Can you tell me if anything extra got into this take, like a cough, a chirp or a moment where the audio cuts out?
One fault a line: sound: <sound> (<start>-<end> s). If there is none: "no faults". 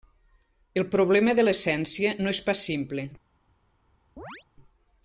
sound: chirp (4.2-4.4 s)